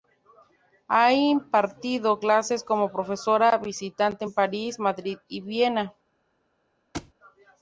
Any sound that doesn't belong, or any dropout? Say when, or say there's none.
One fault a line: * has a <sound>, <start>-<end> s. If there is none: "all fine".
* has a thud, 6.9-7.1 s